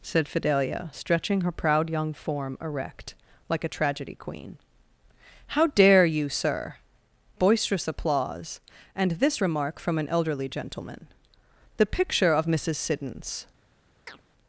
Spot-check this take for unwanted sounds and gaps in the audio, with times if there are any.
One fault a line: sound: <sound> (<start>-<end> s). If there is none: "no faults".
sound: chirp (14.1-14.2 s)